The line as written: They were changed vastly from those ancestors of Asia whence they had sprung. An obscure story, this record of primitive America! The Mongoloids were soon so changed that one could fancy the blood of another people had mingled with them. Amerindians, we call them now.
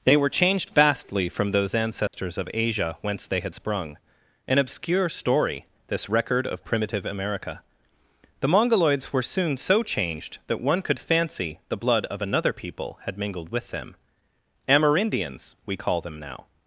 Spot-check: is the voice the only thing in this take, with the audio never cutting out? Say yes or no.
no